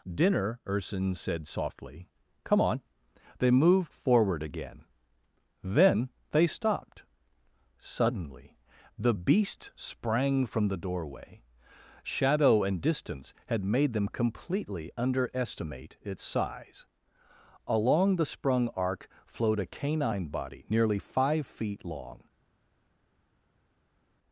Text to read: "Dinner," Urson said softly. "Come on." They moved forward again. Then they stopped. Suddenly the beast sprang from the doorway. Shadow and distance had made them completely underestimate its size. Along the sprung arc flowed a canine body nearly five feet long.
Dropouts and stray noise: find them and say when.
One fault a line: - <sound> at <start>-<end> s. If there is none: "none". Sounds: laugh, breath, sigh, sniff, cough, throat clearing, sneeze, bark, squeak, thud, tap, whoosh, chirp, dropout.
none